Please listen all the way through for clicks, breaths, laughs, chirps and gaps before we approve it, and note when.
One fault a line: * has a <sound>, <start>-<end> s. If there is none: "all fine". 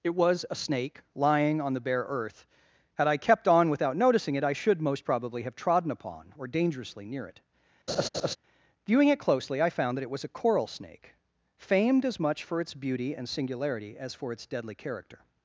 * has a laugh, 7.9-8.4 s